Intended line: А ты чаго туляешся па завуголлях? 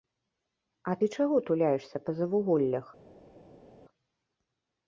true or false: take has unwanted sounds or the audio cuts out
false